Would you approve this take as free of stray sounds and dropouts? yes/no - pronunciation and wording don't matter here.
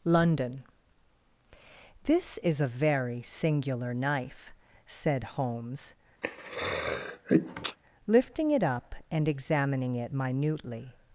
no